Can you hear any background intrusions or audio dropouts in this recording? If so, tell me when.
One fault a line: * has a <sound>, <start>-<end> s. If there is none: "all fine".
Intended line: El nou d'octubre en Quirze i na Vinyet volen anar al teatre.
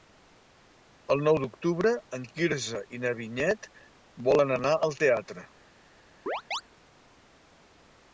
* has a chirp, 6.3-6.6 s